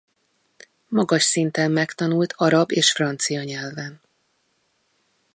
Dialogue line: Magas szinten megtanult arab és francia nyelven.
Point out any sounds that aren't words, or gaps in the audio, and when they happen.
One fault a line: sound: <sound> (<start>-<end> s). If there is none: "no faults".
no faults